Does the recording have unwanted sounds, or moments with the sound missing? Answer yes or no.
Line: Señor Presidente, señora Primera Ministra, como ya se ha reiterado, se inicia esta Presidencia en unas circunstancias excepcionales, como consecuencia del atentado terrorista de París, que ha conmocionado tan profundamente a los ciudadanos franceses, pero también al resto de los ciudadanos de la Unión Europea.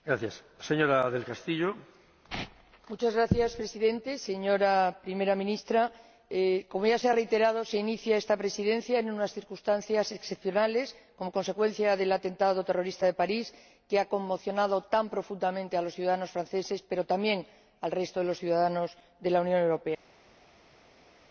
no